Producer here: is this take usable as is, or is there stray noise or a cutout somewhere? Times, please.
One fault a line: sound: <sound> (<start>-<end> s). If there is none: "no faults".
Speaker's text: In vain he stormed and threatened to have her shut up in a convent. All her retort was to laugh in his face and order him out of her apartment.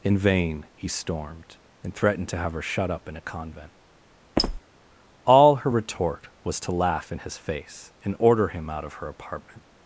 sound: squeak (4.4-4.6 s)